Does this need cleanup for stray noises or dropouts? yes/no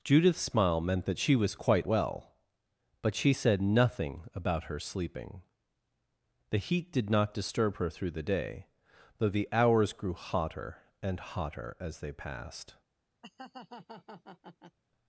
yes